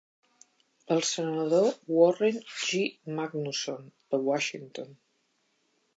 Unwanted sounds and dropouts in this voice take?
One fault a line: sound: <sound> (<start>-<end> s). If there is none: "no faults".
no faults